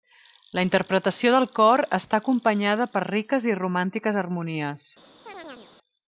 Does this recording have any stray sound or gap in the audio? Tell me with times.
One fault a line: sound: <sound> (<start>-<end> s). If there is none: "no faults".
sound: chirp (5.3-5.7 s)